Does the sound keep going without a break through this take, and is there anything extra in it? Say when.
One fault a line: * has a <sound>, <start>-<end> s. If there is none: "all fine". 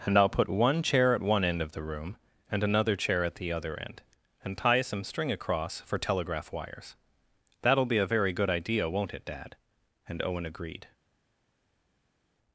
all fine